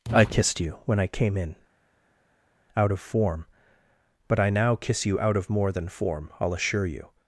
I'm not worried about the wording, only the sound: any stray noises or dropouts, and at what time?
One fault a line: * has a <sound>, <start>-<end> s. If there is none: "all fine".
all fine